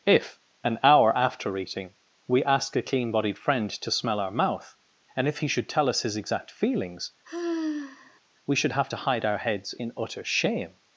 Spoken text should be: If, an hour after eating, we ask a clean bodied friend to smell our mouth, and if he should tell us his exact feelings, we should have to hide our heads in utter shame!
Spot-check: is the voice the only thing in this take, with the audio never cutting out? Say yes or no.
no